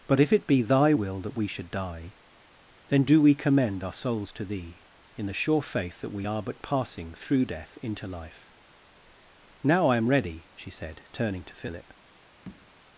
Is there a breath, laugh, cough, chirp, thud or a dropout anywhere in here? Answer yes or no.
yes